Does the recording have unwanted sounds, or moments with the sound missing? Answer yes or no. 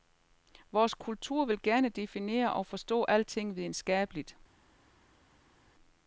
no